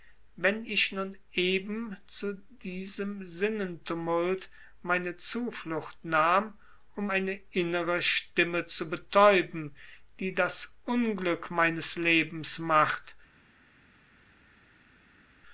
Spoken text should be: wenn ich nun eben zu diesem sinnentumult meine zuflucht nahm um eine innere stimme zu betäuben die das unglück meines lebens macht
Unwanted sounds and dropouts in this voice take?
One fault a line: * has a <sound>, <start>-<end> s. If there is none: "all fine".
all fine